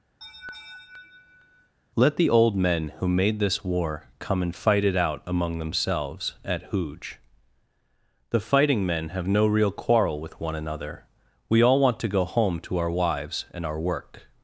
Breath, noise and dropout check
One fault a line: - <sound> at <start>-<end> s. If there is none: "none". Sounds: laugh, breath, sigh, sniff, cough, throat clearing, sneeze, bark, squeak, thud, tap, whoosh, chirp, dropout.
- laugh at 0.2-1.7 s